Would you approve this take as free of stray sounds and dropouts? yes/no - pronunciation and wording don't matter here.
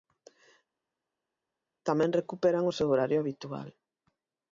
yes